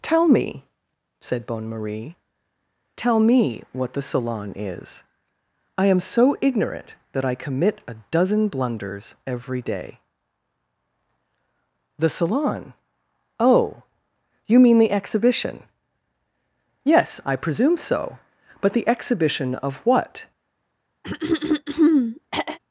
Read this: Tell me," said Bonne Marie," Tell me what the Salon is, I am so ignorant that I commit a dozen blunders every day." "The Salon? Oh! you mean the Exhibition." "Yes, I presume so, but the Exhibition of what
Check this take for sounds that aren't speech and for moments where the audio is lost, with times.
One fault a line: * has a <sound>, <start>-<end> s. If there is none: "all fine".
* has a throat clearing, 21.0-22.6 s